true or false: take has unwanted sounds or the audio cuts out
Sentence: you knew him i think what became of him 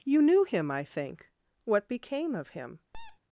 true